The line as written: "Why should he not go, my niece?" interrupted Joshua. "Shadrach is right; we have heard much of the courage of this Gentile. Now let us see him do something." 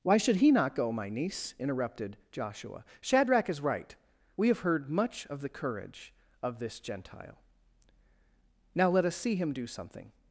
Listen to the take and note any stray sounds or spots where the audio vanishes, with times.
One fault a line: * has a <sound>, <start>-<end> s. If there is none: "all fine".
all fine